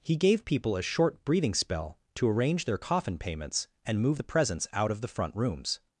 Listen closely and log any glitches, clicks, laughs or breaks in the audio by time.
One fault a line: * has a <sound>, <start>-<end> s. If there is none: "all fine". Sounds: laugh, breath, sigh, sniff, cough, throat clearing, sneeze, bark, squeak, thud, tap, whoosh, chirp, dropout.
all fine